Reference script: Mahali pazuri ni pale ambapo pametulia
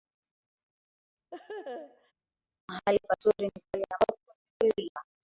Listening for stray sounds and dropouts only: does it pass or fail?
fail